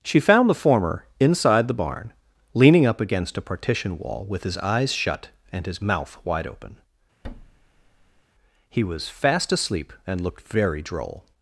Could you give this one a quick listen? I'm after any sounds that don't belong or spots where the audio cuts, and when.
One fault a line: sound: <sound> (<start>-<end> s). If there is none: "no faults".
sound: thud (7.2-8.2 s)